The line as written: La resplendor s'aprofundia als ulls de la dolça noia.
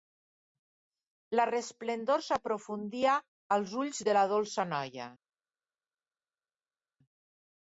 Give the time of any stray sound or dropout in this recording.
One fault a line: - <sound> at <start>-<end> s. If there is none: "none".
none